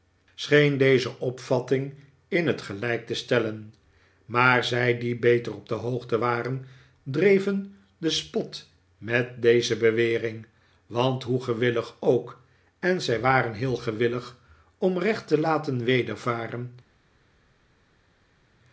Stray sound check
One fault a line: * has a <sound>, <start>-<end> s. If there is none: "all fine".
all fine